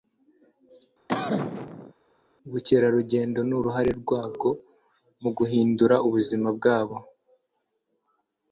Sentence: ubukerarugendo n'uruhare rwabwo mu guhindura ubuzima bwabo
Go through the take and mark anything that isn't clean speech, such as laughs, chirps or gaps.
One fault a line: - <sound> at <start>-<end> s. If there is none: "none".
- cough at 1.1-1.9 s